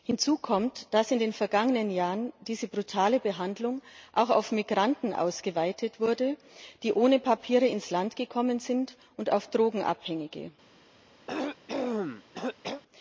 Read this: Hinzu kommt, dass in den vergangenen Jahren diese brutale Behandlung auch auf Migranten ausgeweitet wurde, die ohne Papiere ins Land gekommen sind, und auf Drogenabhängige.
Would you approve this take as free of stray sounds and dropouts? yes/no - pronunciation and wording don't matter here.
no